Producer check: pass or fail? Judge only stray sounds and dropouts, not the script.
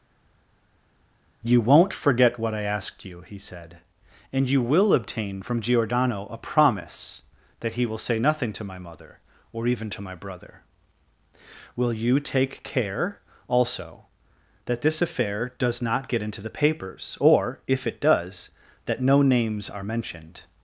pass